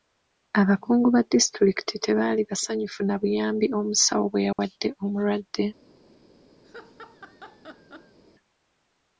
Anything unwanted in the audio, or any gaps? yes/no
yes